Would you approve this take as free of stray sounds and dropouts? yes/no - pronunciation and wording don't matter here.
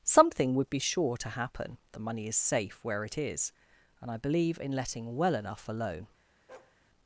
no